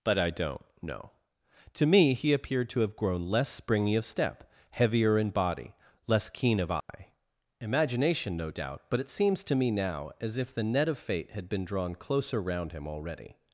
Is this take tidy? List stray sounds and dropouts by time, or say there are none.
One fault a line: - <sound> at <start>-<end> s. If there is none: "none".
- dropout at 6.8-6.9 s